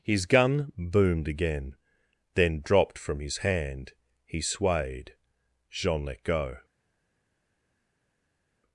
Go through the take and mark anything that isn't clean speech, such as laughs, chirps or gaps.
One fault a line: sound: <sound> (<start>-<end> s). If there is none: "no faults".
no faults